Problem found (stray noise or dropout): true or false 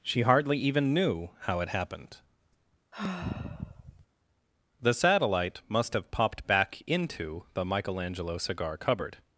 true